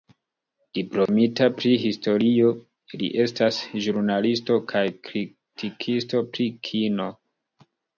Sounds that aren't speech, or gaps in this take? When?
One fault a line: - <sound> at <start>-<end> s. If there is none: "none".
- dropout at 1.1-1.1 s